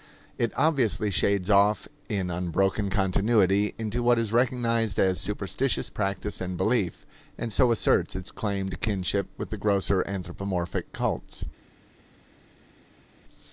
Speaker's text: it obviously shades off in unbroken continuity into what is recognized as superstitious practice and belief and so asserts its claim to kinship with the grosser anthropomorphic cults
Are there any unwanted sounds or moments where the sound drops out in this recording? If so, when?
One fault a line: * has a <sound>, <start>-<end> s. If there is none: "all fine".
all fine